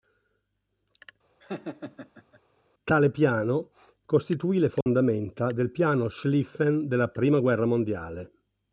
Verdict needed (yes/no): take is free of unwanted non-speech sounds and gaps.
no